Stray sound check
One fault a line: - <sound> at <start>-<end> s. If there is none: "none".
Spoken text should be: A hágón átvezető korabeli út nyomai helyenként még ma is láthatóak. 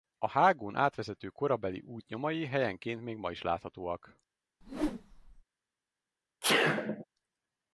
- whoosh at 4.6-5.4 s
- sneeze at 6.4-7.0 s